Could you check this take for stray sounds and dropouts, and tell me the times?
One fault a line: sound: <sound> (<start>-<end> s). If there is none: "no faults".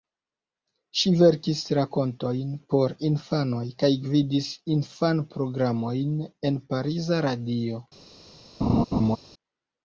sound: laugh (8.6-9.2 s)